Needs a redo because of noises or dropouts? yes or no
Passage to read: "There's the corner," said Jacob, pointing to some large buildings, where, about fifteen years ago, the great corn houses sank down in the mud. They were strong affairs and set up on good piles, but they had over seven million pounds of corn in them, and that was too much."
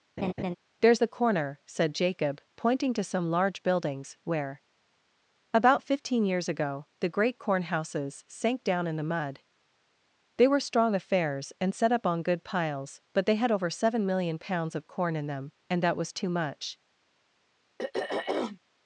yes